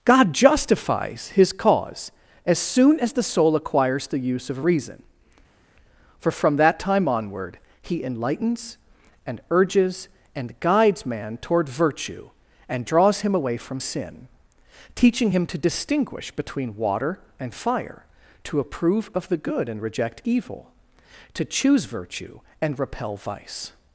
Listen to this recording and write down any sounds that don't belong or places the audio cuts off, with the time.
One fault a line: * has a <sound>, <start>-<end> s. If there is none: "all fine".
all fine